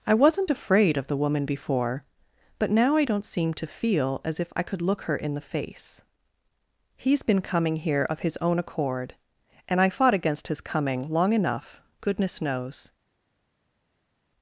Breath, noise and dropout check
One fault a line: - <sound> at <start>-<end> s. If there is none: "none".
none